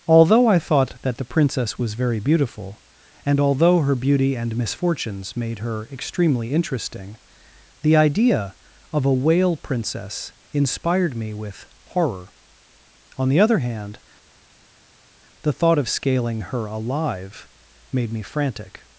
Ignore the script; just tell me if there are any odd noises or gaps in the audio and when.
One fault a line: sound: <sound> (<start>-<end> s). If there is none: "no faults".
no faults